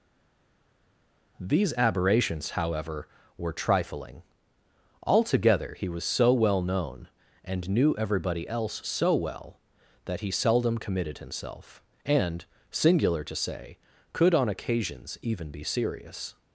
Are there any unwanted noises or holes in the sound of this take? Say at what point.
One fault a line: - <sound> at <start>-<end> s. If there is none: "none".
none